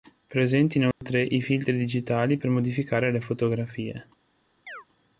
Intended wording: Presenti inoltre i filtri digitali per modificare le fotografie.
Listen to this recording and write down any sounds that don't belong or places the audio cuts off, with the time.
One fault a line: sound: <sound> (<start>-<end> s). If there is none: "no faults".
sound: dropout (0.9-1.0 s)
sound: chirp (4.7-4.9 s)